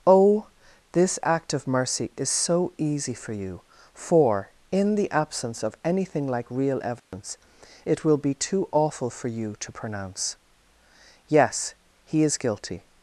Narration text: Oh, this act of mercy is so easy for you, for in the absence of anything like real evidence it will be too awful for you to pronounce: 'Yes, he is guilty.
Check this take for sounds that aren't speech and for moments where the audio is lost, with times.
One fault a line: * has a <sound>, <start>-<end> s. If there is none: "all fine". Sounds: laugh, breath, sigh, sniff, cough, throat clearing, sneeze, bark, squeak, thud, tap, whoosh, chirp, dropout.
* has a dropout, 7.0-7.1 s